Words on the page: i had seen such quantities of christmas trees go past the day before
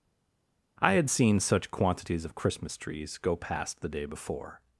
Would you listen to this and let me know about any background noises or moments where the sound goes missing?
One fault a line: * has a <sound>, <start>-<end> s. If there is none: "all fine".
all fine